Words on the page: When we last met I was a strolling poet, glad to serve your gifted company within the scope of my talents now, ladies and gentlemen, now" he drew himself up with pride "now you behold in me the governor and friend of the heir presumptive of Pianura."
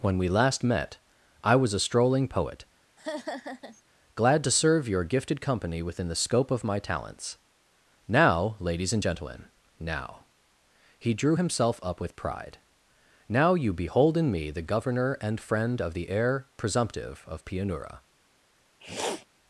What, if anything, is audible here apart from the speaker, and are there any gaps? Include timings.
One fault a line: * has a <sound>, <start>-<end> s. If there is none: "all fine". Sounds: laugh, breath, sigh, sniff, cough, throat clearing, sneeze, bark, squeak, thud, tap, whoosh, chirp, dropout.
* has a laugh, 3.0-3.8 s
* has a sniff, 18.8-19.3 s